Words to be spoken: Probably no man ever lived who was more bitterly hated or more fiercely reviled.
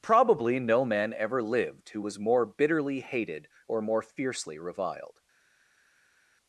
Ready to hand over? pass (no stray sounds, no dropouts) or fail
pass